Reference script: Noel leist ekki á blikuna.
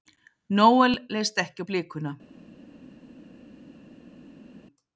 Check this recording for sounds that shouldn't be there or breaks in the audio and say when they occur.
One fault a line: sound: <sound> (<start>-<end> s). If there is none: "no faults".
no faults